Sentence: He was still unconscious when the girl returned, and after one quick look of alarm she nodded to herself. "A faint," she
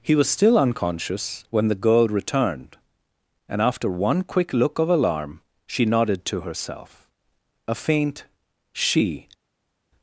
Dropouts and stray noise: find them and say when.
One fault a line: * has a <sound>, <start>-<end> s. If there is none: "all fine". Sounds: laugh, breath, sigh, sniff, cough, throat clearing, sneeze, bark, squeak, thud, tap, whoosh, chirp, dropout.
all fine